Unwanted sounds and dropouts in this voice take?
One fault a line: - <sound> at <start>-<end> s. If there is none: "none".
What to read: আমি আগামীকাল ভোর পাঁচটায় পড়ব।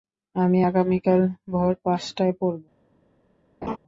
- laugh at 3.6-3.8 s